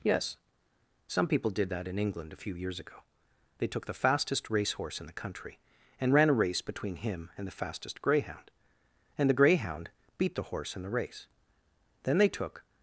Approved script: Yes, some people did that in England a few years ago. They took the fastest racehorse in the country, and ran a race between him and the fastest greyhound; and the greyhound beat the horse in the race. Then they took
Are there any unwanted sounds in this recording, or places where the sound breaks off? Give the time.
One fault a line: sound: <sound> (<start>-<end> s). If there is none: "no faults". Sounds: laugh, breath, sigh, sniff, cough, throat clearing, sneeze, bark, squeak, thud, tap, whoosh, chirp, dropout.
no faults